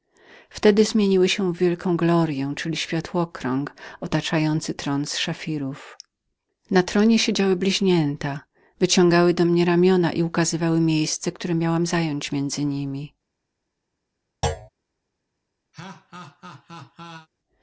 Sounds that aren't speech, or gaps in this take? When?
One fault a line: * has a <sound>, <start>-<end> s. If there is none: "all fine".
* has a thud, 14.4-14.7 s
* has a laugh, 15.7-17.3 s